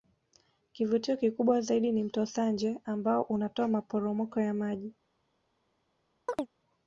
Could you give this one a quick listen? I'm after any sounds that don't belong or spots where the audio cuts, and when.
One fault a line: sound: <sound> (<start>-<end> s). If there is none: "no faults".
sound: chirp (6.3-6.5 s)